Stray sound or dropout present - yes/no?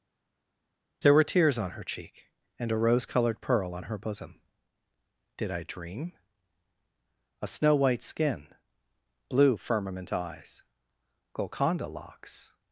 no